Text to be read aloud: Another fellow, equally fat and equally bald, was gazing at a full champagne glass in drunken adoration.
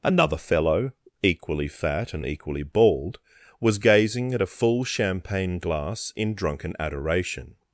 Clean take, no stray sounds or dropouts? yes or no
yes